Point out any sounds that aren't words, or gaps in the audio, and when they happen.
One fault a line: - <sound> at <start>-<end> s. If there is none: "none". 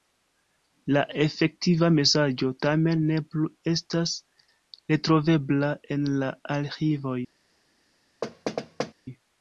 - thud at 8.2-8.9 s